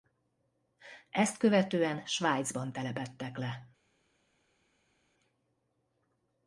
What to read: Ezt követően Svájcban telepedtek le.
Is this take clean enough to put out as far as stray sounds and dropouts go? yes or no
yes